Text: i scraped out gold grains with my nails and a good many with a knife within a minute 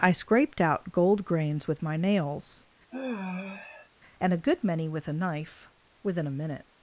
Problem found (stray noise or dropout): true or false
true